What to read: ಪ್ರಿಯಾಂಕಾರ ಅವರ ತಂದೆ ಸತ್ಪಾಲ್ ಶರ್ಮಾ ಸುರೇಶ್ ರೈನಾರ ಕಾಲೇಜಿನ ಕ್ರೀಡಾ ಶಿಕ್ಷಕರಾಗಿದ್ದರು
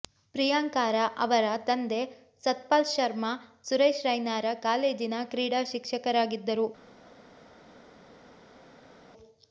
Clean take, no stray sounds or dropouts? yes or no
yes